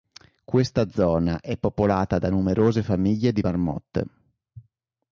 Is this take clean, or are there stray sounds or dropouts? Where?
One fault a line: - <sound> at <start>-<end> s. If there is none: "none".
none